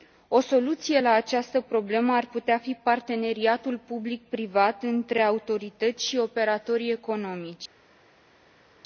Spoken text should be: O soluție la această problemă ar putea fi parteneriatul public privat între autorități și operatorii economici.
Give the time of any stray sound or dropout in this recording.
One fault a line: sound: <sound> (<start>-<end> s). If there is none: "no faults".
no faults